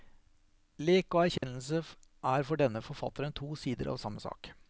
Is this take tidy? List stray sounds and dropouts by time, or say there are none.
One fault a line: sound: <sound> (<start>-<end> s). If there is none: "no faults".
sound: dropout (1.4-1.4 s)